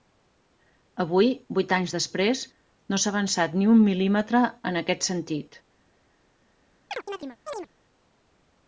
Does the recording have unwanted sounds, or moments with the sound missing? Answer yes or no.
yes